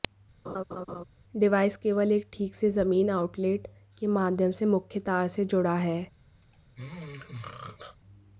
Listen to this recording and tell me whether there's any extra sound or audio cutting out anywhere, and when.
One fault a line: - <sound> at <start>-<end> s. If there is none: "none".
- laugh at 0.5-1.0 s
- throat clearing at 6.4-8.0 s